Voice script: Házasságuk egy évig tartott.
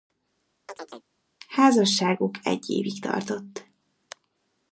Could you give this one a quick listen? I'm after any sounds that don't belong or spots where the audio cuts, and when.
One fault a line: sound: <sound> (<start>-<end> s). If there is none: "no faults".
sound: chirp (0.7-1.1 s)